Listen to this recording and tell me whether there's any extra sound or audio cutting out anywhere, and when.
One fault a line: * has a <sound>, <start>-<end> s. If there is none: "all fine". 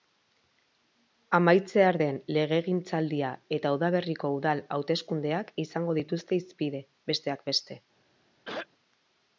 * has a throat clearing, 8.4-8.7 s